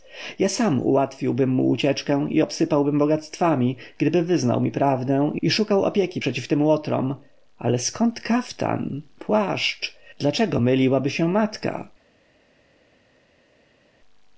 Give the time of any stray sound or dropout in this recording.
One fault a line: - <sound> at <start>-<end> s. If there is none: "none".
none